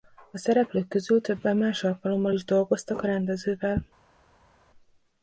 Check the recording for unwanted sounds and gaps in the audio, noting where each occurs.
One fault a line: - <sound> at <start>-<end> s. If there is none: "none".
none